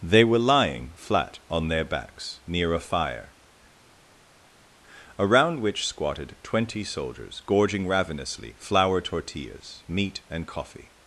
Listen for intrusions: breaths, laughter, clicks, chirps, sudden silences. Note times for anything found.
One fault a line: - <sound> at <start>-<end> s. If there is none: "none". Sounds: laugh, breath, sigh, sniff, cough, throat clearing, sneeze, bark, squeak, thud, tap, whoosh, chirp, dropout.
none